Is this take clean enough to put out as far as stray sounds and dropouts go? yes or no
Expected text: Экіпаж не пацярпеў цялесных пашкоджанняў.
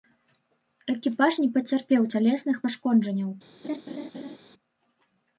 no